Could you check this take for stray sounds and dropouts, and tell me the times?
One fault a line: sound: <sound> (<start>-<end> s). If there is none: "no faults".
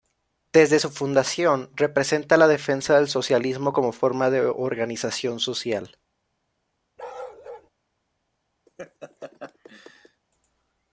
sound: bark (7.0-7.7 s)
sound: laugh (8.7-10.2 s)